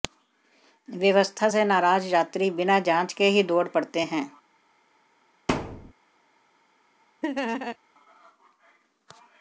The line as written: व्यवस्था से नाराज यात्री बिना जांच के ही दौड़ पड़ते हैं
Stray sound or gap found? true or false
true